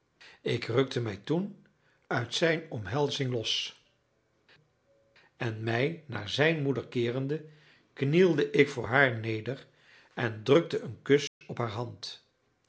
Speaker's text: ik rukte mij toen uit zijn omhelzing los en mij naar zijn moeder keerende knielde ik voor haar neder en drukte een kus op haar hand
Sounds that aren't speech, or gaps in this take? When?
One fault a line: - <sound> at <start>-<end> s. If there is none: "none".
- dropout at 11.3-11.4 s